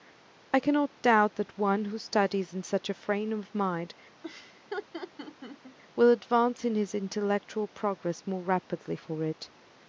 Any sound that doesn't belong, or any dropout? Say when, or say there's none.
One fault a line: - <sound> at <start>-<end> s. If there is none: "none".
- laugh at 4.2-5.8 s